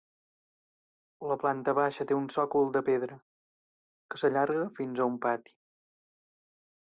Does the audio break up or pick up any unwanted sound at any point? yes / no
no